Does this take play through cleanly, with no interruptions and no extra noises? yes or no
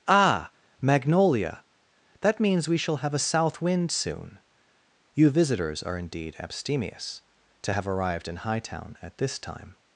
yes